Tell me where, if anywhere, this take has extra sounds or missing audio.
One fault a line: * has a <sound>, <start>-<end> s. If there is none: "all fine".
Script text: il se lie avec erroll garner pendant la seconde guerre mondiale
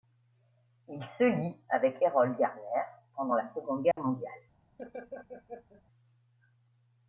* has a dropout, 3.9-4.0 s
* has a laugh, 4.8-5.8 s